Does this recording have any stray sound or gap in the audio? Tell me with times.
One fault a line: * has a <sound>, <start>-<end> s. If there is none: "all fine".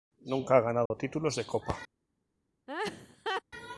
* has a dropout, 0.9-0.9 s
* has a laugh, 2.7-3.4 s